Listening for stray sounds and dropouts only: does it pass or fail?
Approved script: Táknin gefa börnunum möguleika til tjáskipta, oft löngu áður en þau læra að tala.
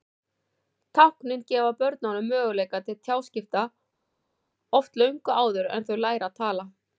pass